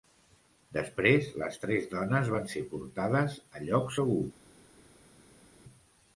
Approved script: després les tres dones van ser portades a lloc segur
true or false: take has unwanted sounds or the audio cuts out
false